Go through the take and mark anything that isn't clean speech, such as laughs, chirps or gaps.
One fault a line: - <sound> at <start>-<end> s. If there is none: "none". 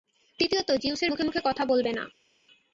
none